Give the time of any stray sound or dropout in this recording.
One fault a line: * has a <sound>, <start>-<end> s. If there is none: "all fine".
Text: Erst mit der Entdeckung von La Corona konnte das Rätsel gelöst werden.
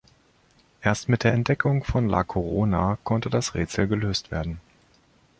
all fine